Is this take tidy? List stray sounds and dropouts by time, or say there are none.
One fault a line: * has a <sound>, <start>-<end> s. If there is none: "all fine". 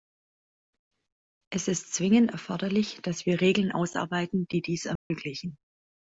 * has a dropout, 5.0-5.1 s